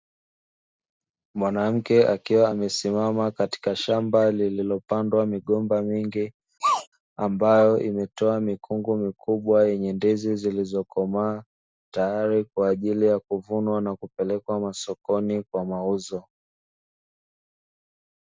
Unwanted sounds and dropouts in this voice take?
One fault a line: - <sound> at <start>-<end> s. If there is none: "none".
- sneeze at 6.6-6.9 s